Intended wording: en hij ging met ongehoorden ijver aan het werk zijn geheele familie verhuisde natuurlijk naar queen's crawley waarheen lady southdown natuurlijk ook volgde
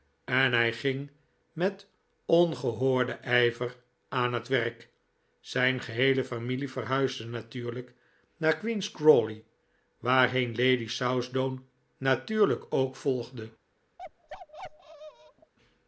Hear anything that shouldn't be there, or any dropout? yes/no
yes